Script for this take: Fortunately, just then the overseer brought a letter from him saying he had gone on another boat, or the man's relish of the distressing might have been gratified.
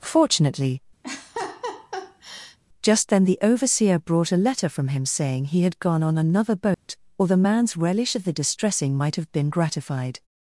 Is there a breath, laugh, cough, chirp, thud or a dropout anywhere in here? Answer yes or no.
yes